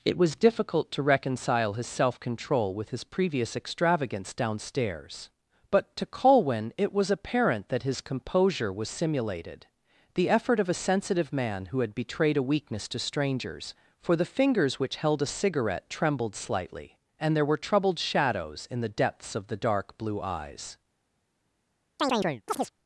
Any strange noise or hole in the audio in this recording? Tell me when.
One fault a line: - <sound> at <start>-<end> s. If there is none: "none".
- chirp at 22.0-22.7 s